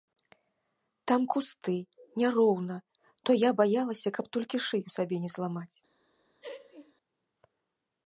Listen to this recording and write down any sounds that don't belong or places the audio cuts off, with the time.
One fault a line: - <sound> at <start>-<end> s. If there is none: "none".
- laugh at 6.4-6.9 s